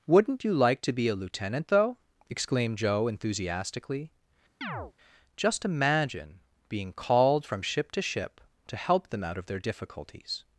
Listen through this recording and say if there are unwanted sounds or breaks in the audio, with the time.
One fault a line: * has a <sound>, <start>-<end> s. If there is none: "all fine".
* has a chirp, 4.6-4.9 s